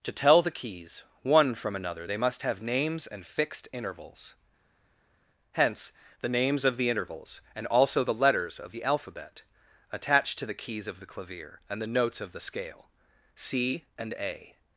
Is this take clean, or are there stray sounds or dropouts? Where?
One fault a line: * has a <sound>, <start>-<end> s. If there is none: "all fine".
all fine